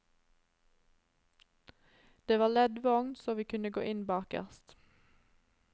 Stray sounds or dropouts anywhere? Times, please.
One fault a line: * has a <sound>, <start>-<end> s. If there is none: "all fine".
all fine